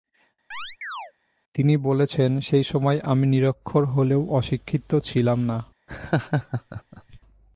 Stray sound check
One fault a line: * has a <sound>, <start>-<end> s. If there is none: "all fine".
* has a chirp, 0.5-1.1 s
* has a laugh, 5.9-7.2 s